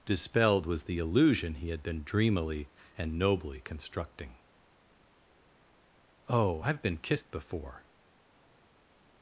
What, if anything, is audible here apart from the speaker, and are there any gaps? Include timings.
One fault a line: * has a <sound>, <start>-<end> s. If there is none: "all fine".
all fine